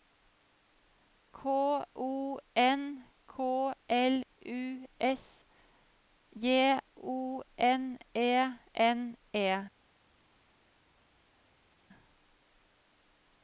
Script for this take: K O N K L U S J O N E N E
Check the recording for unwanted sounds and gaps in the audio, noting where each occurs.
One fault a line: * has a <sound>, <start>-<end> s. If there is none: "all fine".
all fine